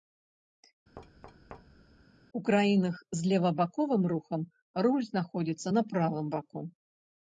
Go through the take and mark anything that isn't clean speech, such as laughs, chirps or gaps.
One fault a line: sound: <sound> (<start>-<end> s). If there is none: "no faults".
sound: thud (1.0-2.1 s)